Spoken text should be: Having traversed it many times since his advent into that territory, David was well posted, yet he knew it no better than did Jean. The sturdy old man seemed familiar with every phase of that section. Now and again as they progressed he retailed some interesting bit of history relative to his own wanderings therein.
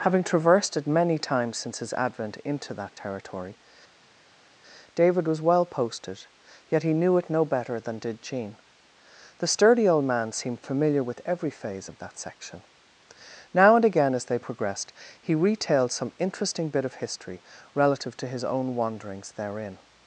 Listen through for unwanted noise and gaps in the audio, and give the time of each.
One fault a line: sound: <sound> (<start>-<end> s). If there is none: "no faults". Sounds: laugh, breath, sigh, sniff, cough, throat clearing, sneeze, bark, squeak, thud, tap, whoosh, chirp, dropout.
no faults